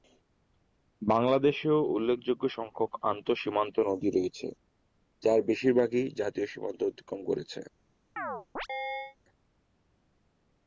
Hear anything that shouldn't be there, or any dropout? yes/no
yes